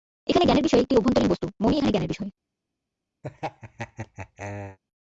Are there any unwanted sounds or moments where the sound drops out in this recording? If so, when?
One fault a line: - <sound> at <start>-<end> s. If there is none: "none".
- laugh at 3.2-4.8 s